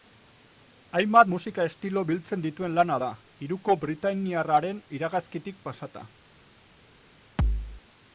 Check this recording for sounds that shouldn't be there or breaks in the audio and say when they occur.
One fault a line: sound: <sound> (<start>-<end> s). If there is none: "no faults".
sound: thud (7.4-7.8 s)